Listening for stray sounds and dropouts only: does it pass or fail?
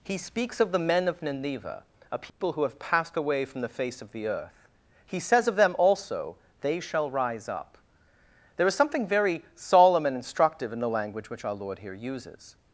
fail